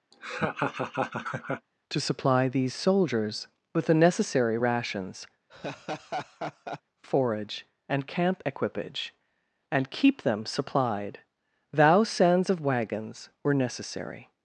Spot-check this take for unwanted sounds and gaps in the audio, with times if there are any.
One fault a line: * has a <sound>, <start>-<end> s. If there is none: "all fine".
* has a laugh, 0.1-1.7 s
* has a laugh, 5.5-6.8 s